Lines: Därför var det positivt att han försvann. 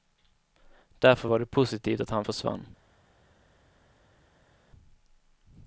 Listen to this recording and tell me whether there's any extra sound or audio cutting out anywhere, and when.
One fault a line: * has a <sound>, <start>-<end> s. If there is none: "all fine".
all fine